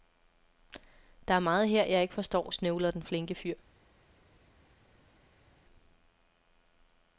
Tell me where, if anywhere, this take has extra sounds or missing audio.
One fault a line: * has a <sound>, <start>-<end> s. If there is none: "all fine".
all fine